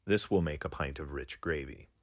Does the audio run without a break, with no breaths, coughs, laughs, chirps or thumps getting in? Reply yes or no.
yes